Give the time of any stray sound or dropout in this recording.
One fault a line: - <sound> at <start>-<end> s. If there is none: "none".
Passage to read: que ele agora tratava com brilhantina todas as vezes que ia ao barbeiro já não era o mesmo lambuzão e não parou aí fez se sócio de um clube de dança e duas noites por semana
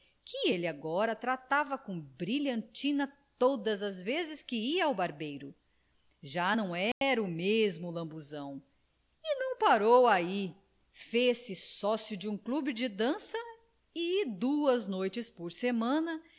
- dropout at 6.9-7.0 s